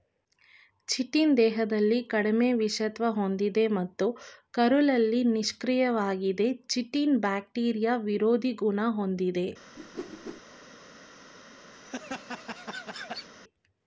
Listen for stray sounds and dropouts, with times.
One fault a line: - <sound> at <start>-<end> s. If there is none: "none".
- whoosh at 9.8-10.4 s
- laugh at 11.7-13.3 s